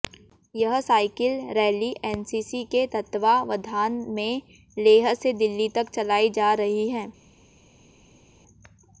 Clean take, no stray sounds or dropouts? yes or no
yes